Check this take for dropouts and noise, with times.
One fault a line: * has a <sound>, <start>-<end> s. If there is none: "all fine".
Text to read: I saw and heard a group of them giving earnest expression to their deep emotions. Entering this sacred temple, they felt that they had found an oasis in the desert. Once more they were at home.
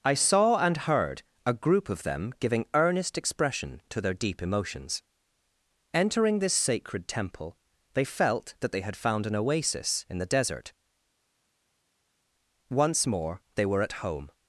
all fine